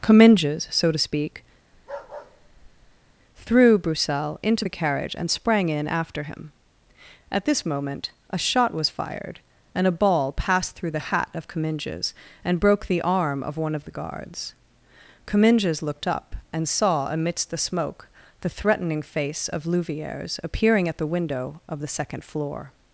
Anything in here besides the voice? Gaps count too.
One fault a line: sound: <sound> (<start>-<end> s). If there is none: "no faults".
sound: bark (1.7-3.1 s)